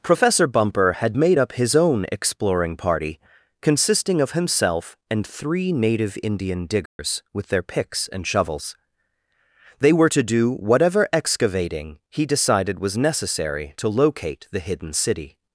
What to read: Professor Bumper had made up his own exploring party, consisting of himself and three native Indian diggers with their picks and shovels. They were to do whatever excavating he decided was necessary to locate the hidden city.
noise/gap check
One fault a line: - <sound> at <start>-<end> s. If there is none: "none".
- dropout at 6.9-7.0 s